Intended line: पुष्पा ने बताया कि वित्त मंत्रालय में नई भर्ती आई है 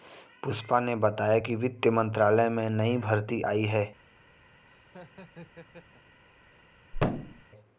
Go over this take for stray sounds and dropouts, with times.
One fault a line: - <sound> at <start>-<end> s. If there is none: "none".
- laugh at 4.6-6.2 s
- thud at 6.9-7.4 s